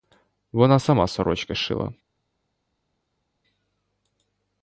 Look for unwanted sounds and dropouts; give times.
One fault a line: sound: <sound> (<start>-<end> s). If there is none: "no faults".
no faults